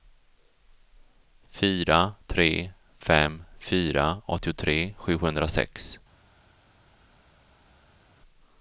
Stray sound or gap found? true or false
false